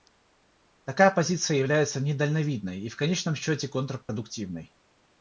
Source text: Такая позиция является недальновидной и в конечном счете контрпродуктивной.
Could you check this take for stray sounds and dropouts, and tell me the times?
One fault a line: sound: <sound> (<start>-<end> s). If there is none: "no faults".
sound: dropout (4.0-4.1 s)